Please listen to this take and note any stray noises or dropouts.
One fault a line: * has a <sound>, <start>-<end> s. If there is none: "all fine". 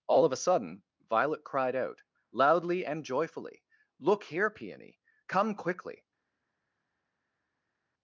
all fine